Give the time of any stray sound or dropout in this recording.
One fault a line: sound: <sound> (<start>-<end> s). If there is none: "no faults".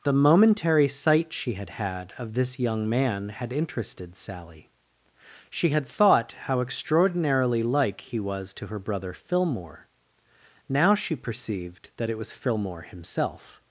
no faults